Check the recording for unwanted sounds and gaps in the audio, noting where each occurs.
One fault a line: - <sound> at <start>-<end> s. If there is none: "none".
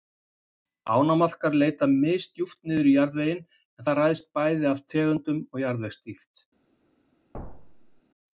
- thud at 7.3-8.0 s